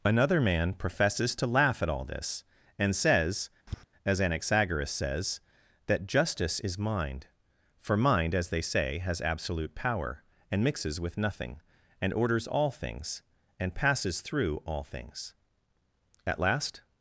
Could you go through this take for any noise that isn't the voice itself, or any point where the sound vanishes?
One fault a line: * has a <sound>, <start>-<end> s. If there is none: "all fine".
* has a tap, 3.7-3.8 s